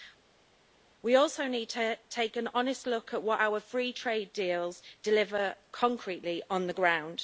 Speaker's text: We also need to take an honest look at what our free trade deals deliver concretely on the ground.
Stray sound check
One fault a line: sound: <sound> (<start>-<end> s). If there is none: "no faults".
no faults